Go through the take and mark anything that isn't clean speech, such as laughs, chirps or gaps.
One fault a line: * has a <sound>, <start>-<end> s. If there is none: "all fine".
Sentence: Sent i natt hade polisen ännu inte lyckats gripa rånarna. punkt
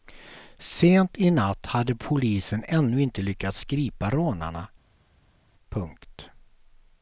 all fine